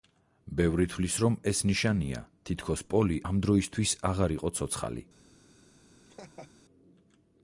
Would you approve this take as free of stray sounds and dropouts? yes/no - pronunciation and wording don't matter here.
no